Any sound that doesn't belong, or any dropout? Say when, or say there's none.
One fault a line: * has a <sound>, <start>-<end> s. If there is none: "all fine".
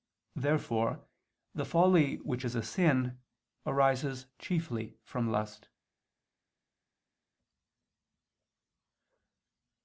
all fine